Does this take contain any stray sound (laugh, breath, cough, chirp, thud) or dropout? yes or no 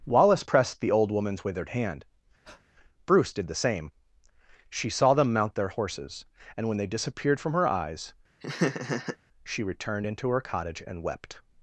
yes